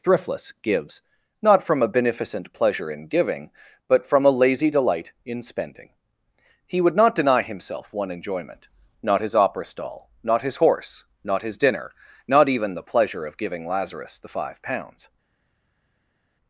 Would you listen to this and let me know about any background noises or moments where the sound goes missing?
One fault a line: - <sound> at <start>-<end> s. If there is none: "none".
none